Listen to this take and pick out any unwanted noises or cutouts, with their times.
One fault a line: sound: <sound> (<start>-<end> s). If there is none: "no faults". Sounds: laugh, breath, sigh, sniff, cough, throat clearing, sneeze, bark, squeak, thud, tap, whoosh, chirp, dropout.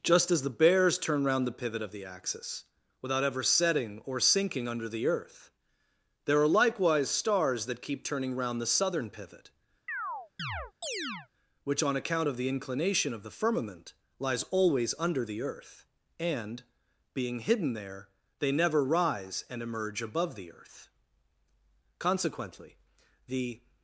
sound: chirp (9.9-11.3 s)